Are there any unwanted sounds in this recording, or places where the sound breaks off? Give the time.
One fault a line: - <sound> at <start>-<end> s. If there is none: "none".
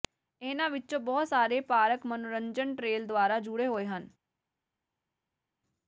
none